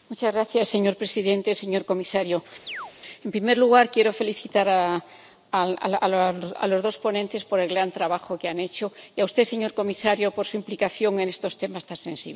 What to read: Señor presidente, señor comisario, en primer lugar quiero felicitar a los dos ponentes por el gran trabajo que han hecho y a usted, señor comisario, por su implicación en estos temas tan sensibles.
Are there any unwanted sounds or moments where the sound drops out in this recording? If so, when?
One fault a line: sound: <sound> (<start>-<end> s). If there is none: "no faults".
sound: chirp (2.7-2.9 s)